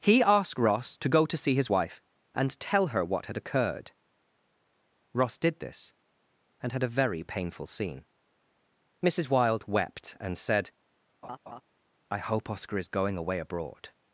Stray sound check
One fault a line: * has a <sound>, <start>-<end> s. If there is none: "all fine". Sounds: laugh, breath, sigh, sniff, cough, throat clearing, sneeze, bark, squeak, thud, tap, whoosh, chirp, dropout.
* has a laugh, 11.2-11.6 s